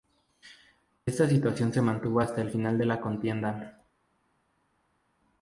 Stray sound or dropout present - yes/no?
no